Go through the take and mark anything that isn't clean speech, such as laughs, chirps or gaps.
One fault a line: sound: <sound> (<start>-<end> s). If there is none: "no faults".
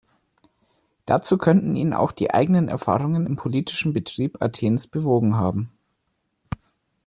no faults